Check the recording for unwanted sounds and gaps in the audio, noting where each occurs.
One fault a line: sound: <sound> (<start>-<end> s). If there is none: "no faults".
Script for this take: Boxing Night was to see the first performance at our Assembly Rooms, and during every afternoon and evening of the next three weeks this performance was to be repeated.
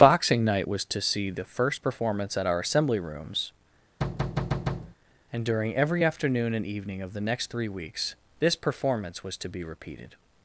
sound: thud (4.0-4.9 s)